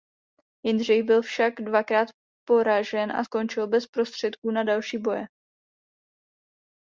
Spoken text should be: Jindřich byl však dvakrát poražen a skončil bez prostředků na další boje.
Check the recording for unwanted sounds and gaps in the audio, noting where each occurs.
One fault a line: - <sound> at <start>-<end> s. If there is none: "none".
none